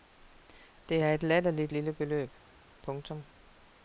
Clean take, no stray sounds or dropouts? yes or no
yes